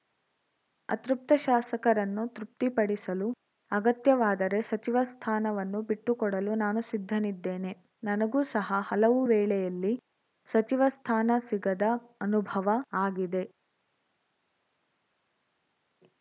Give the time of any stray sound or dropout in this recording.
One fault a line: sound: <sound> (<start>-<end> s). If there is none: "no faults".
no faults